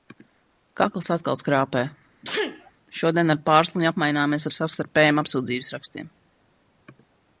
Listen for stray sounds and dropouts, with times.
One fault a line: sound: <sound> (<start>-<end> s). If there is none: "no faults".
sound: sneeze (2.2-2.7 s)